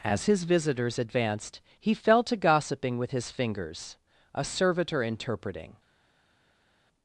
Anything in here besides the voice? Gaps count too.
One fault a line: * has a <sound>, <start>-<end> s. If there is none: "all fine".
all fine